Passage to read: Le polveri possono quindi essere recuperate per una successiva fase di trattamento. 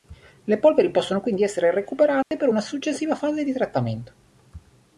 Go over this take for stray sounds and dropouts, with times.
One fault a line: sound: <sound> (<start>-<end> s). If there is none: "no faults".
sound: dropout (2.2-2.3 s)